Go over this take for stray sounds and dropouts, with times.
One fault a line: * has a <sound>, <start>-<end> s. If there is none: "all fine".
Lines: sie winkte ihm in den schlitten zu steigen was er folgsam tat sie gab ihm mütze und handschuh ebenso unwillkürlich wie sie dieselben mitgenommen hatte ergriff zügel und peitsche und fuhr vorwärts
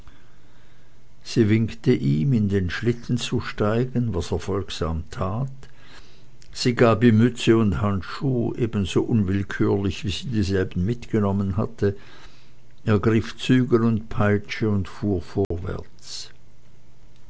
* has a dropout, 15.4-15.5 s